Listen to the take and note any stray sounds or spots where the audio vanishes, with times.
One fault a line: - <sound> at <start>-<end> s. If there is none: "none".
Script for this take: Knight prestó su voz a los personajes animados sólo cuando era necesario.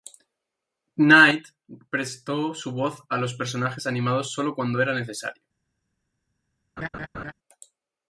- laugh at 6.8-7.3 s